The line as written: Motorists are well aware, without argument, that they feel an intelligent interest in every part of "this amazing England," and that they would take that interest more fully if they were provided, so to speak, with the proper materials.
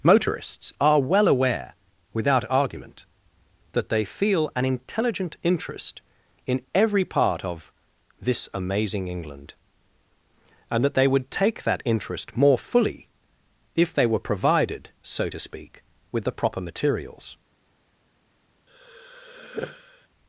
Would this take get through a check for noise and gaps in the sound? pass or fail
fail